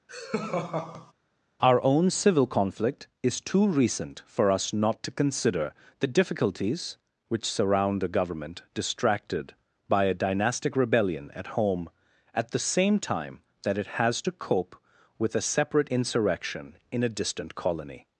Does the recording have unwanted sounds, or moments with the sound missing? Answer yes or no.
yes